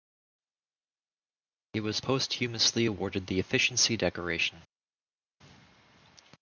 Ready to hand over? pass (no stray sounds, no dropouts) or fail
pass